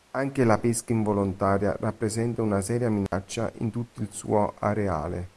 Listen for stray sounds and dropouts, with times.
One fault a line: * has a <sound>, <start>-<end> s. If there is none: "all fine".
* has a dropout, 3.1-3.1 s